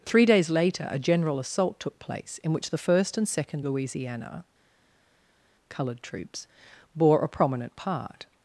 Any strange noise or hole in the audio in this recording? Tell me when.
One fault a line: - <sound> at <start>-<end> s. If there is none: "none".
none